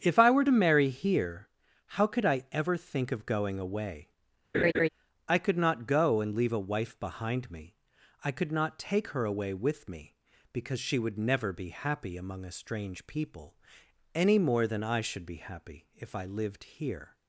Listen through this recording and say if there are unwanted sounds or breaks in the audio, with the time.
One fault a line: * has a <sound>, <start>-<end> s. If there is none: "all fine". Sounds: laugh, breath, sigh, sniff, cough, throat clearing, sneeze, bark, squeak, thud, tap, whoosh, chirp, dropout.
* has a laugh, 4.5-4.9 s